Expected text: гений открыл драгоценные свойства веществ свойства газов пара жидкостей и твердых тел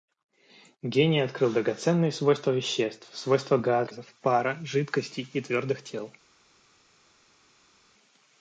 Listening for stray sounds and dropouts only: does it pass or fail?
pass